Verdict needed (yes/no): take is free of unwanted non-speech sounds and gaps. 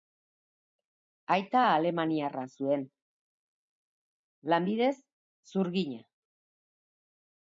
yes